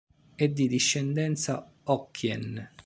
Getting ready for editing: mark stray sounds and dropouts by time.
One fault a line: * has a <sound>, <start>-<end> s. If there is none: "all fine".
all fine